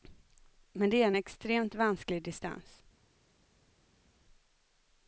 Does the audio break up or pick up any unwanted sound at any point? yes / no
no